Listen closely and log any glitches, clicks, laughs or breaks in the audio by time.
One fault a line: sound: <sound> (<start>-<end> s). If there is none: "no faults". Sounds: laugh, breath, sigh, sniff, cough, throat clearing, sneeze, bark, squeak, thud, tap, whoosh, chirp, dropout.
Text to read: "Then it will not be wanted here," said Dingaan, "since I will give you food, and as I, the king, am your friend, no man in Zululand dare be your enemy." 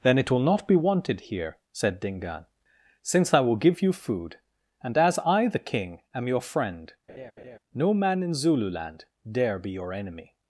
sound: laugh (7.1-7.6 s)